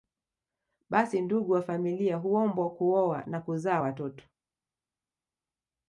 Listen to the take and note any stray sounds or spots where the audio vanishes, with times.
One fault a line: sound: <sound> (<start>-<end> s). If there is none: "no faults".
no faults